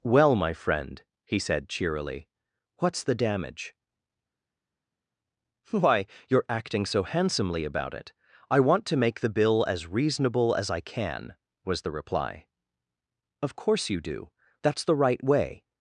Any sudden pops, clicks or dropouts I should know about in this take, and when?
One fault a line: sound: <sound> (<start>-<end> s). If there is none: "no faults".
no faults